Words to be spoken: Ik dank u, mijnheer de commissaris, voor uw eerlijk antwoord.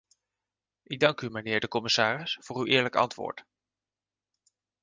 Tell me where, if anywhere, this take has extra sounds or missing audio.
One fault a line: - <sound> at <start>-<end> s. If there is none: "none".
none